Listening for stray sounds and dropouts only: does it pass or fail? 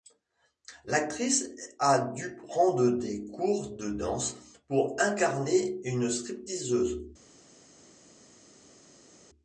pass